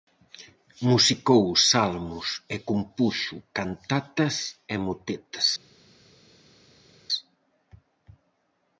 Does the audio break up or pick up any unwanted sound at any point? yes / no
no